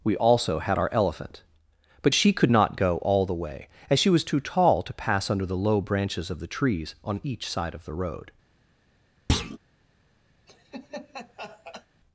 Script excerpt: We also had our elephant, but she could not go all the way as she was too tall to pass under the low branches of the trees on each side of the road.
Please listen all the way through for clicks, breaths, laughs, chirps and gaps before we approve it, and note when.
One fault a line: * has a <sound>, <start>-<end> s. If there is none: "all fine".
* has a thud, 9.3-9.6 s
* has a laugh, 10.5-11.9 s